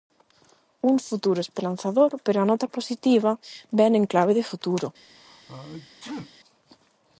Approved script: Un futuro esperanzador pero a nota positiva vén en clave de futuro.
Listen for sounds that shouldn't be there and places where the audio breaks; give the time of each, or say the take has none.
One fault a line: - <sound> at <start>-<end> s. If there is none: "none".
- sneeze at 5.2-6.3 s